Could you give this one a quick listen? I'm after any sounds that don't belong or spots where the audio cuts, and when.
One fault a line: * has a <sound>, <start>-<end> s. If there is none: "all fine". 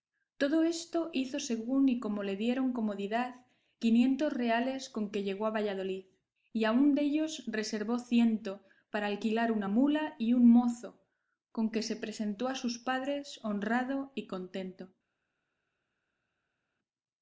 all fine